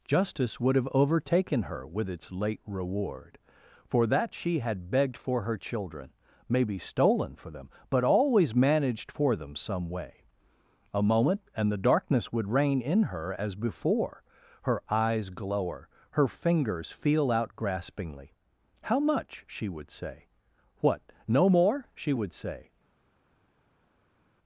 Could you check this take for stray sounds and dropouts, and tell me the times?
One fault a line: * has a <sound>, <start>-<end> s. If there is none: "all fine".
all fine